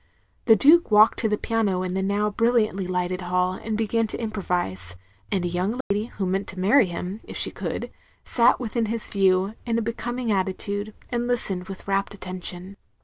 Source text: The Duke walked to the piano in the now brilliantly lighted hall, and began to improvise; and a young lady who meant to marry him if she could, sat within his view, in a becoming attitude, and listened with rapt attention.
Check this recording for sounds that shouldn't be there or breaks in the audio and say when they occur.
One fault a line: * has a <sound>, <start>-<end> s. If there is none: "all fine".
* has a dropout, 5.8-5.9 s